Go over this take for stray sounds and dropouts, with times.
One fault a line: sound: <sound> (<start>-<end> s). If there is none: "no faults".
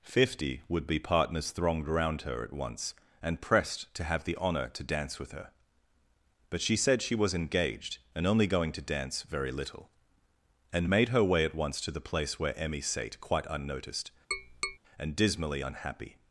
sound: tap (14.3-14.8 s)